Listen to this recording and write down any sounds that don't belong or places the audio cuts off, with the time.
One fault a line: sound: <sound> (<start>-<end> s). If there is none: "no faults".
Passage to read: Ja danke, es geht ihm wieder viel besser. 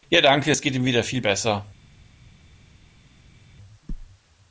no faults